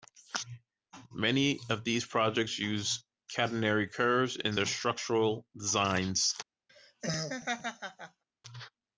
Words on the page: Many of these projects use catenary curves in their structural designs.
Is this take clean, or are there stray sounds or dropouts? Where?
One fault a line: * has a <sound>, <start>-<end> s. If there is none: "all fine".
* has a laugh, 6.7-8.2 s